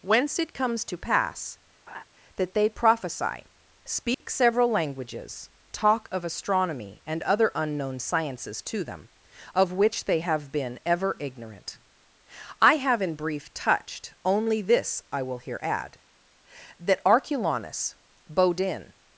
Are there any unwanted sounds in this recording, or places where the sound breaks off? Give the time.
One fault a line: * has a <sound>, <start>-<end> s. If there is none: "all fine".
* has a laugh, 1.9-2.0 s
* has a dropout, 4.1-4.2 s